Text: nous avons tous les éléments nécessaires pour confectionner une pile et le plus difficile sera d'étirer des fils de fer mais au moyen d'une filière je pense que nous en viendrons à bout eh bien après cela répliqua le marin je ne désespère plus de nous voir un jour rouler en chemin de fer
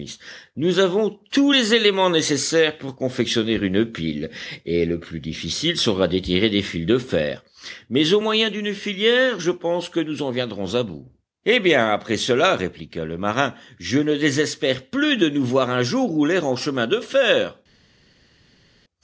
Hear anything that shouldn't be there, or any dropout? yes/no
no